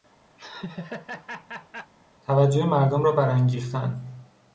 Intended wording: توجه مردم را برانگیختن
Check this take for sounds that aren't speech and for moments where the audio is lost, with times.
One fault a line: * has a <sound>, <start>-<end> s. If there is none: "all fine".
* has a laugh, 0.4-1.9 s